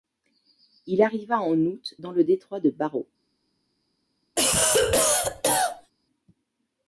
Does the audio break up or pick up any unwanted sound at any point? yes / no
yes